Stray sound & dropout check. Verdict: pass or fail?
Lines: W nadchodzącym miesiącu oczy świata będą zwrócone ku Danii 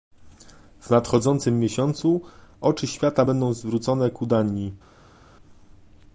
pass